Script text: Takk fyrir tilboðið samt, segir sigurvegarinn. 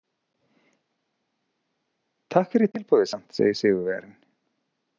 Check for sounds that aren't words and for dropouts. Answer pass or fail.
pass